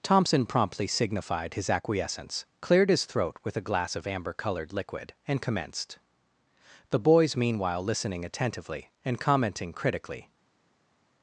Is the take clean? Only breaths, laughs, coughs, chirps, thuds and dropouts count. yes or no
yes